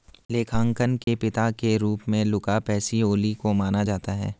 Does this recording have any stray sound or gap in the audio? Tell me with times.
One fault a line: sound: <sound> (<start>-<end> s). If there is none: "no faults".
sound: dropout (1.0-1.1 s)